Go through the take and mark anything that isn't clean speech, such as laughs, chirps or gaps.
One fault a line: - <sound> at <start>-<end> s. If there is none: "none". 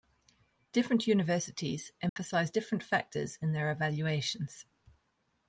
- dropout at 2.1-2.2 s